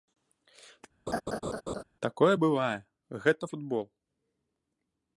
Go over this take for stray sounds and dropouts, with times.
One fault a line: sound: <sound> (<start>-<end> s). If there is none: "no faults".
sound: laugh (1.1-1.8 s)